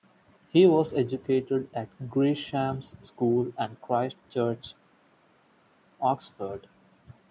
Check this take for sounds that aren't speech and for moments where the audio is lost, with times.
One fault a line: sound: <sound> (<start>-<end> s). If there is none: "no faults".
no faults